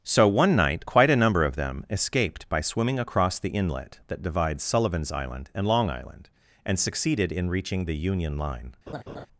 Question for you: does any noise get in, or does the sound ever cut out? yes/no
yes